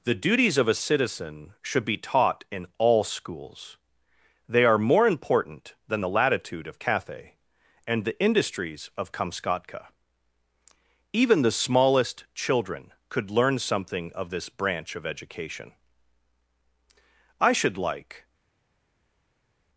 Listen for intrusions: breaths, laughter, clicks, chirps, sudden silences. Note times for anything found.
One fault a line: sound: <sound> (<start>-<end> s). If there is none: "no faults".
no faults